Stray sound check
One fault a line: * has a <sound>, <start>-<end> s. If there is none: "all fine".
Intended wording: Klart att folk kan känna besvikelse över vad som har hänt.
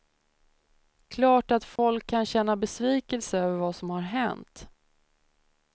* has a dropout, 1.8-1.8 s